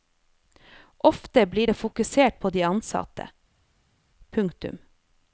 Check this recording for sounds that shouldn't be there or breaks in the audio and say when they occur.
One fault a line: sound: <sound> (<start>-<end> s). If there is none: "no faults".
no faults